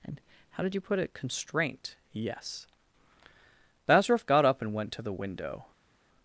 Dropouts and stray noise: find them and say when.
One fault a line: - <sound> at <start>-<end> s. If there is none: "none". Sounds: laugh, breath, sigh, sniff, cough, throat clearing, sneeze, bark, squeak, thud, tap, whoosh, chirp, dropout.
none